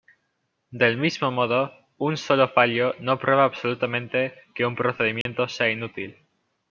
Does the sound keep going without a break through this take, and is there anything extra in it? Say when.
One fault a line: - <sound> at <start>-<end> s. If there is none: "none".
- dropout at 5.2-5.3 s